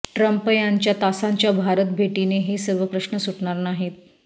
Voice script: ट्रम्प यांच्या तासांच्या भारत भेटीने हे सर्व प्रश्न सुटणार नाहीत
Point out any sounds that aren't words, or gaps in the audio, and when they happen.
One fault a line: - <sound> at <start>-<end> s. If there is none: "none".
none